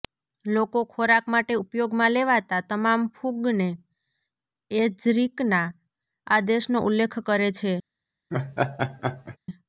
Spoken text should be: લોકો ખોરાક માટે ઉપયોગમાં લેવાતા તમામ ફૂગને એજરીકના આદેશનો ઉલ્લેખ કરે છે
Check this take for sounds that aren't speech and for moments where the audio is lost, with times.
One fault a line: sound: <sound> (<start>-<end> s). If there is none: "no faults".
sound: laugh (8.3-9.4 s)